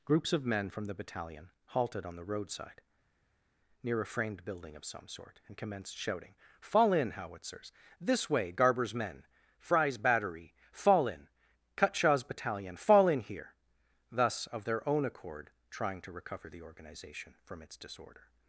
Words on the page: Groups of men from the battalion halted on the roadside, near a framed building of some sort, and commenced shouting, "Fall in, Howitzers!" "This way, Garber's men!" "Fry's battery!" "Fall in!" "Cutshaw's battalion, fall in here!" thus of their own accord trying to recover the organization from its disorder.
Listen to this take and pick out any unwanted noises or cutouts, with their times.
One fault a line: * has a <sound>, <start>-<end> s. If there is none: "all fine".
all fine